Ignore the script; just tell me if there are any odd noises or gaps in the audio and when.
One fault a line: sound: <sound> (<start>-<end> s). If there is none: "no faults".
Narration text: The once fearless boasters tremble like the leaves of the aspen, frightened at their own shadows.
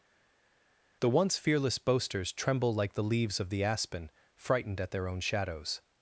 no faults